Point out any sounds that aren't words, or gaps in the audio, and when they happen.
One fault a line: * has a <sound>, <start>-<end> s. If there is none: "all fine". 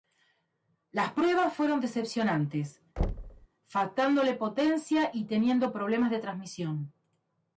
* has a thud, 3.0-3.5 s